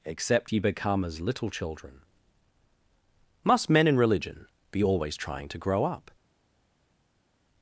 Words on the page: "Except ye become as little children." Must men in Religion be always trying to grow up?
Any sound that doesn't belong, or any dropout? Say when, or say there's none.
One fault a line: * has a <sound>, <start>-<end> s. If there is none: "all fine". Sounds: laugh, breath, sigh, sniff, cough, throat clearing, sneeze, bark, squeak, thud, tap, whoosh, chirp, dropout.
all fine